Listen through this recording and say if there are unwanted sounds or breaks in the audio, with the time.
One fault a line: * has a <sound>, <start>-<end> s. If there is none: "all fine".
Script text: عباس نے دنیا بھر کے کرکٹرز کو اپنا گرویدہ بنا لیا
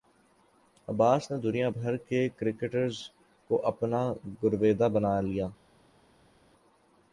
all fine